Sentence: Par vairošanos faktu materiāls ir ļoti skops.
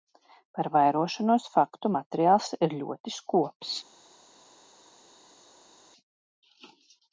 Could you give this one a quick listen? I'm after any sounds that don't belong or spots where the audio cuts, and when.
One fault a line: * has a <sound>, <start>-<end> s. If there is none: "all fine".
all fine